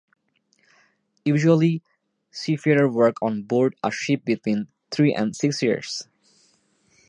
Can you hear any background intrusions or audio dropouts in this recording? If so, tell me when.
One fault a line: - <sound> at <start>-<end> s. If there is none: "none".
none